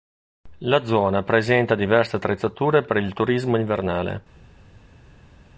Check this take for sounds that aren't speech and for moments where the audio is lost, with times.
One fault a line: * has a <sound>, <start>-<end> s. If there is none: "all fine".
all fine